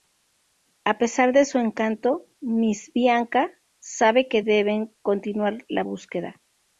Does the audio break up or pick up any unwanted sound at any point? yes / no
no